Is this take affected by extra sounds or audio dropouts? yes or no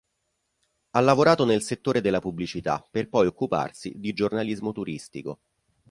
no